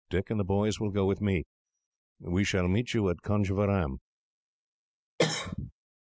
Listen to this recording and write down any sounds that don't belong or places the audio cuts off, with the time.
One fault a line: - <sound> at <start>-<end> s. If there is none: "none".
- cough at 5.2-5.7 s